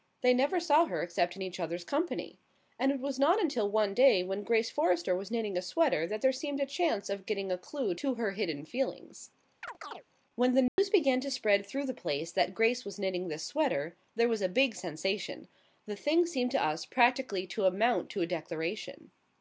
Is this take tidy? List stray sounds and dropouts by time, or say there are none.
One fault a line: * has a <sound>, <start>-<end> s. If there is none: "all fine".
* has a chirp, 9.6-10.0 s
* has a dropout, 10.7-10.8 s